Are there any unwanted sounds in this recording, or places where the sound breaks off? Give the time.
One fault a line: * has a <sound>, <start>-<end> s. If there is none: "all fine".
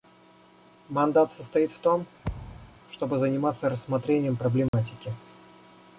* has a thud, 2.2-2.8 s
* has a dropout, 4.7-4.7 s